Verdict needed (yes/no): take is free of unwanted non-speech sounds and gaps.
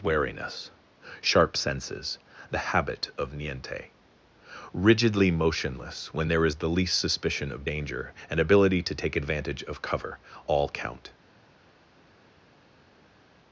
yes